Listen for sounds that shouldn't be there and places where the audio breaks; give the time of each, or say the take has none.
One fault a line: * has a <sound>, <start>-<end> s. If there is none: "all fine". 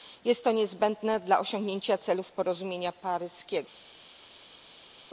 all fine